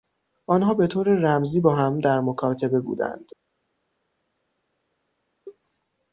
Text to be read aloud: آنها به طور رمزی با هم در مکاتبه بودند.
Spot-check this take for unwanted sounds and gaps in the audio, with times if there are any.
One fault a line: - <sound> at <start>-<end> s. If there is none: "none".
none